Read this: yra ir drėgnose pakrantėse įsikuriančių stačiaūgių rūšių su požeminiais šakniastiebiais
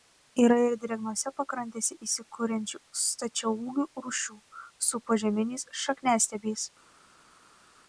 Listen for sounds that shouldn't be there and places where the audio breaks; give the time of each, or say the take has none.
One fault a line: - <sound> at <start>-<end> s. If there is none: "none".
none